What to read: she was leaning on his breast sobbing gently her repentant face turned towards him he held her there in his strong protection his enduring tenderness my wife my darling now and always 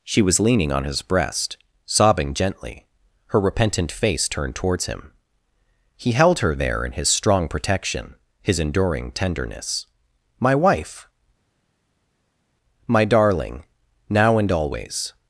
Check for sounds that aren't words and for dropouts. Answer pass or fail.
pass